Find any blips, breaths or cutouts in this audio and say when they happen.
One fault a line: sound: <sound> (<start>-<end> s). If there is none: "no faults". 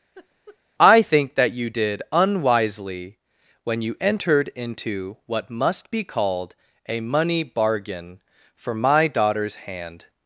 sound: laugh (0.1-0.6 s)